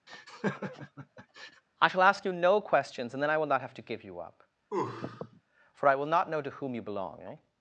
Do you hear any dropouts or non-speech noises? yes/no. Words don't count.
yes